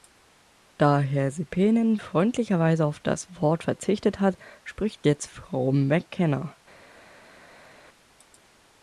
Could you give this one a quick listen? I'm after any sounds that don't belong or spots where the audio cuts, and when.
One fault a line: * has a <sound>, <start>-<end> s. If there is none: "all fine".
all fine